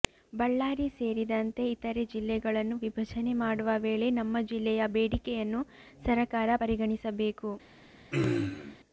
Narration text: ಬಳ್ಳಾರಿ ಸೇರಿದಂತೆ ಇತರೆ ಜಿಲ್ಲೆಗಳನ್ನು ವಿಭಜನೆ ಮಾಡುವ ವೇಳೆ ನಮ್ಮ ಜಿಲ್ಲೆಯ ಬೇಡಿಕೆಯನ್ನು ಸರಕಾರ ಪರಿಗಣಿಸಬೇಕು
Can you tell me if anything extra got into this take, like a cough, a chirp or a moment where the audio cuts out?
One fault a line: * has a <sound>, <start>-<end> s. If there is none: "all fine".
* has a throat clearing, 8.1-8.8 s